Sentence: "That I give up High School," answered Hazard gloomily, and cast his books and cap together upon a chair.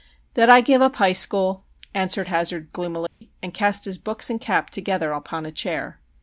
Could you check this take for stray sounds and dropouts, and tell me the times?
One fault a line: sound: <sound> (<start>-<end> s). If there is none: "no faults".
sound: dropout (3.1-3.2 s)